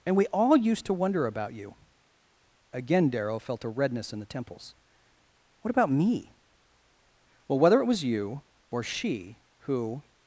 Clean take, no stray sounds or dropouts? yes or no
yes